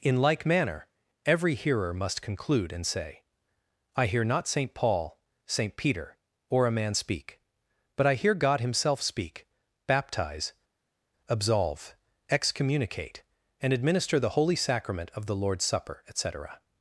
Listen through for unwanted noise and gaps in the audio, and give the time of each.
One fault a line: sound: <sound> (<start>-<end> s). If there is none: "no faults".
no faults